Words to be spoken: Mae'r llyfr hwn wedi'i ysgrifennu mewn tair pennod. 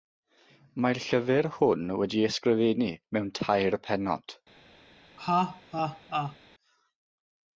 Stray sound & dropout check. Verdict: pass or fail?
fail